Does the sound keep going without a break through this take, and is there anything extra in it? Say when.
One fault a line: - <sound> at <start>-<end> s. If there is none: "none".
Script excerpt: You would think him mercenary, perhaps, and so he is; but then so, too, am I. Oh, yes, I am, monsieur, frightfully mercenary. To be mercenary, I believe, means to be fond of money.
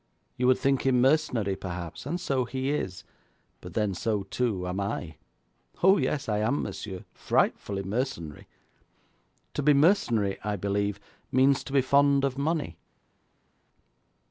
none